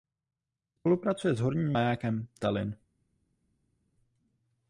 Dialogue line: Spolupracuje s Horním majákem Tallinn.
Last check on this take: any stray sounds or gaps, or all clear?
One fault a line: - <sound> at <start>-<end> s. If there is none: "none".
none